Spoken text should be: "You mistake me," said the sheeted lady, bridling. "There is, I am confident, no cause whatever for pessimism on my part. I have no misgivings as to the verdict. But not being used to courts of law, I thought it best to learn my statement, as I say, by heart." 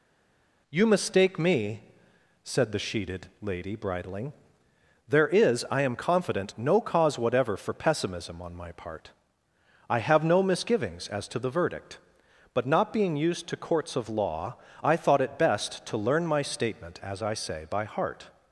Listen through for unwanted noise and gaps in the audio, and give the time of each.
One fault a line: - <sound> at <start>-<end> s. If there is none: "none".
none